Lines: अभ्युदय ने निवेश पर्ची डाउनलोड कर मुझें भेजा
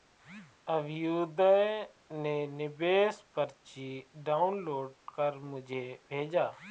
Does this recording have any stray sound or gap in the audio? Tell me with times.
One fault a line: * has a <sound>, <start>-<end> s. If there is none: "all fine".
all fine